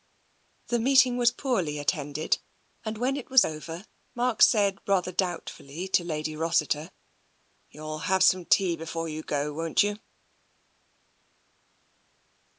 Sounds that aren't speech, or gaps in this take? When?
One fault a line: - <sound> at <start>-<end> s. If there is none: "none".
none